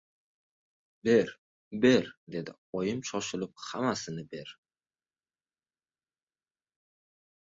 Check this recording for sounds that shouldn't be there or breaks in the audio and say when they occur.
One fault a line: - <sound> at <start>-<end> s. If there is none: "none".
none